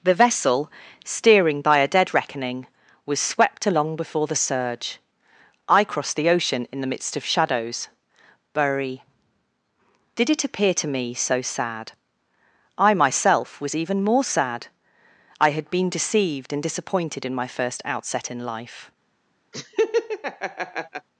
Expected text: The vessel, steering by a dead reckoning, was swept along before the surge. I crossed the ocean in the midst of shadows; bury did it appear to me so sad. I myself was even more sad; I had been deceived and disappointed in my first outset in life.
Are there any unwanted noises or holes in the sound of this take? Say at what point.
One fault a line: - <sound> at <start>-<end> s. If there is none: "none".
- laugh at 19.5-21.1 s